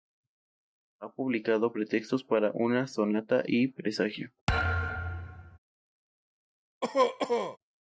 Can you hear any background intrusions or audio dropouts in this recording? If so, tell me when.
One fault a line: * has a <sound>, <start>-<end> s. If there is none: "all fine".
* has a thud, 4.5-5.6 s
* has a cough, 6.8-7.6 s